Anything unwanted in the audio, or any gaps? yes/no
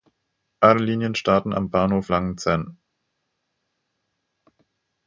no